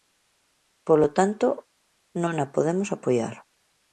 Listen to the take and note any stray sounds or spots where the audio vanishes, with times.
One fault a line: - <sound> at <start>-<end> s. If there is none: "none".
none